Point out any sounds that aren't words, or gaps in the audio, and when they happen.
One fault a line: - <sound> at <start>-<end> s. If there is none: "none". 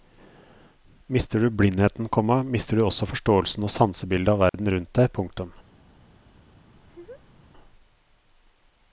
- dropout at 4.5-4.5 s
- laugh at 6.7-7.4 s